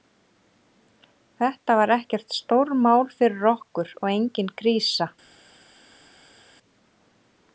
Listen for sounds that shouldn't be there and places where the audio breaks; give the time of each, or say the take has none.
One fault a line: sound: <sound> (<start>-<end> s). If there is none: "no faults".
no faults